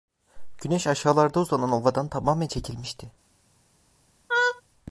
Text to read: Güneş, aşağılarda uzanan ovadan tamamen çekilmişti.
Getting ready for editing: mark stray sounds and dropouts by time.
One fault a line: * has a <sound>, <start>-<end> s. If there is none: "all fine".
* has a laugh, 4.3-4.6 s